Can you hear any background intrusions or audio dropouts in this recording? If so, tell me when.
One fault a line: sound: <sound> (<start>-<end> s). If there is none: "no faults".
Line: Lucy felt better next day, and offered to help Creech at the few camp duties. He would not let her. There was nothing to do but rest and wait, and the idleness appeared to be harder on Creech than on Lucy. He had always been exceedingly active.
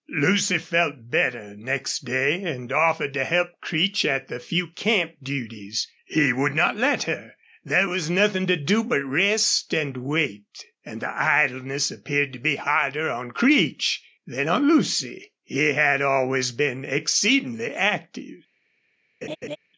sound: laugh (19.2-19.6 s)